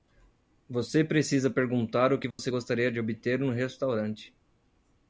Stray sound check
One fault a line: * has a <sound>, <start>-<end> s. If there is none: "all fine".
* has a dropout, 2.3-2.4 s